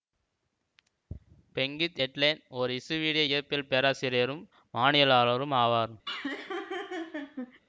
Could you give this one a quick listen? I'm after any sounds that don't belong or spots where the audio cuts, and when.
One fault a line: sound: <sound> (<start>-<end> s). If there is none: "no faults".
sound: laugh (6.1-7.6 s)